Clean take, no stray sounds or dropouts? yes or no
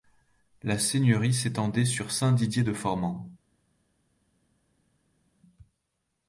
yes